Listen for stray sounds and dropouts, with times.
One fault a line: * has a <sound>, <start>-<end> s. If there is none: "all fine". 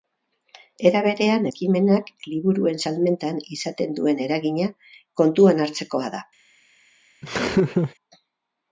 * has a laugh, 7.2-7.9 s